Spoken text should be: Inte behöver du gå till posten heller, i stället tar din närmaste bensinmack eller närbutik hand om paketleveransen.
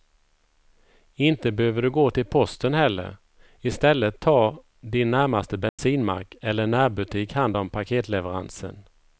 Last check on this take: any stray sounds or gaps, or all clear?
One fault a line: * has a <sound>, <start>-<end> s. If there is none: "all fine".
* has a dropout, 5.7-5.8 s